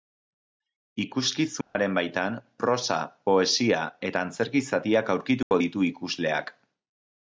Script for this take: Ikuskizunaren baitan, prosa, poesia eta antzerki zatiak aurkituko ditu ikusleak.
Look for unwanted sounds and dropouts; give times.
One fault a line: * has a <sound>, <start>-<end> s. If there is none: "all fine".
* has a dropout, 1.6-1.8 s
* has a dropout, 5.4-5.5 s